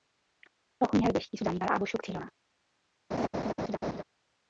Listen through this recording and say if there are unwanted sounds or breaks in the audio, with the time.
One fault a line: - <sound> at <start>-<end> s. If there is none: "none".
- laugh at 3.1-4.0 s